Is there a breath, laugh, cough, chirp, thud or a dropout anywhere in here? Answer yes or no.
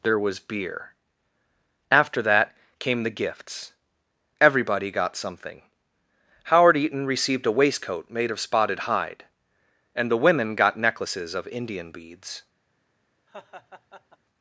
yes